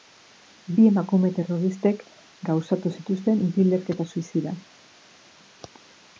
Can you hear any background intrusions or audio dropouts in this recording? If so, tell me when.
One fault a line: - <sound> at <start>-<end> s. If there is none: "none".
none